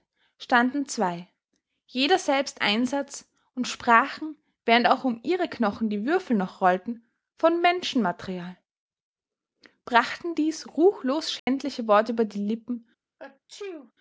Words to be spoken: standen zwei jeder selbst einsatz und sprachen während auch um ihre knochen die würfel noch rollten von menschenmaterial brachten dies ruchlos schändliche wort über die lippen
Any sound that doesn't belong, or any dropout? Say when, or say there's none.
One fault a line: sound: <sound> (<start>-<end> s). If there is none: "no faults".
sound: dropout (11.4-11.5 s)
sound: sneeze (13.2-13.9 s)